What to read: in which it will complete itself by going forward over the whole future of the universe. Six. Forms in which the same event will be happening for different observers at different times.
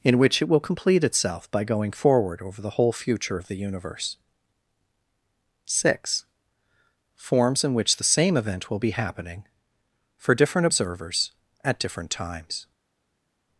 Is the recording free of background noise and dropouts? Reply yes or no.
yes